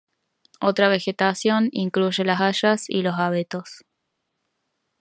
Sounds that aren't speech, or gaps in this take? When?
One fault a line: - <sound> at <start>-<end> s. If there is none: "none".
none